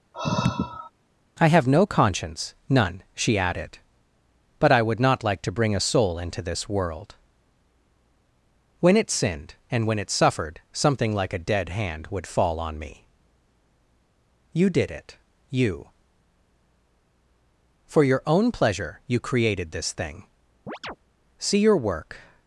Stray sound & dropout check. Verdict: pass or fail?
fail